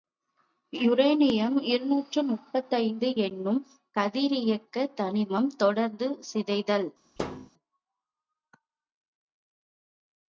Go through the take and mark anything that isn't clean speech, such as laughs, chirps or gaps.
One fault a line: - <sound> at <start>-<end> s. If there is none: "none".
- thud at 7.2-7.5 s